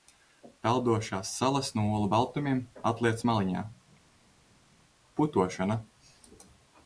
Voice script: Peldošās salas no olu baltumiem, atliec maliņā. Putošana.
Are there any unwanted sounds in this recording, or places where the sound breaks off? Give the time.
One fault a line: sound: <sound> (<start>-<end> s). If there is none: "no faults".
no faults